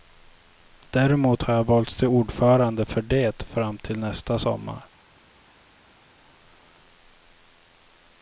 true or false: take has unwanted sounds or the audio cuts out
false